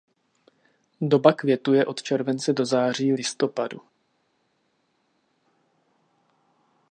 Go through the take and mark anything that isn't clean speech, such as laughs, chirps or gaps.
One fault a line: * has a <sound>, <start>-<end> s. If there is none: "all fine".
all fine